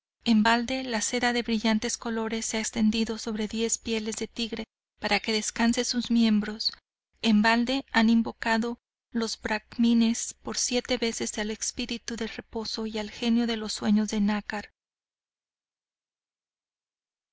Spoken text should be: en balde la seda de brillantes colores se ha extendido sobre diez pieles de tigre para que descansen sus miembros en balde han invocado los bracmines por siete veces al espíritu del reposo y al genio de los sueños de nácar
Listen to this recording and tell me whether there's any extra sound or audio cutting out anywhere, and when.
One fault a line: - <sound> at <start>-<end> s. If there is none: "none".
none